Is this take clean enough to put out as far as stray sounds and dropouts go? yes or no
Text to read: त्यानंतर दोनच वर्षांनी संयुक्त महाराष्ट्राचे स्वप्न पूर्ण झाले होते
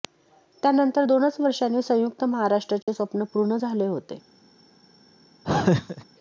no